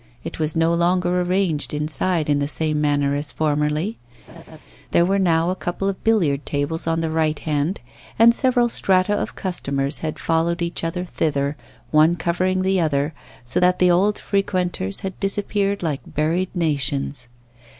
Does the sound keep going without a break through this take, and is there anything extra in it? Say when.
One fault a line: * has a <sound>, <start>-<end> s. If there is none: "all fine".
* has a laugh, 4.3-4.6 s